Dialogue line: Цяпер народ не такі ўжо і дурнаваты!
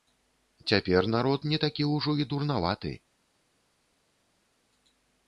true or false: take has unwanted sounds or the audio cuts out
false